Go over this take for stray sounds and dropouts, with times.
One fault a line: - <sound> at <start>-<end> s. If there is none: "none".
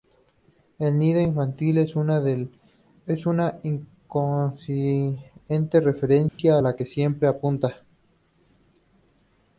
- dropout at 6.3-6.4 s